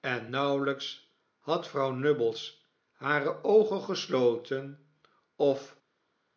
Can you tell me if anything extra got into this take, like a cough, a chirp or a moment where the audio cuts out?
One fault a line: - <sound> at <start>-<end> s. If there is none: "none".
none